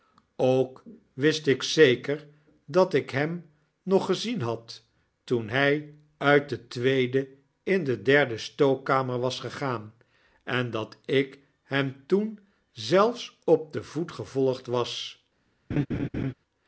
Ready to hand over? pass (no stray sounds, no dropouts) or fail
fail